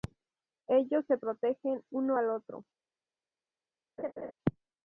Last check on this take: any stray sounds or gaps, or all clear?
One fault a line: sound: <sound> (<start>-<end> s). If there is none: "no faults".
sound: laugh (4.0-4.3 s)